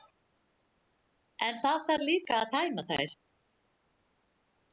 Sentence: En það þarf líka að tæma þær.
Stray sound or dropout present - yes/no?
no